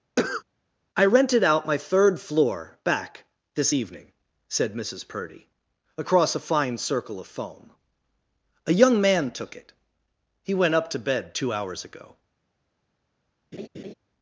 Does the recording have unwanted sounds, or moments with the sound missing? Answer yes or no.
yes